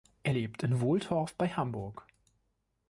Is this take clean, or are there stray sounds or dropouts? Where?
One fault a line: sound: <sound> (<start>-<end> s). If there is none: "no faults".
no faults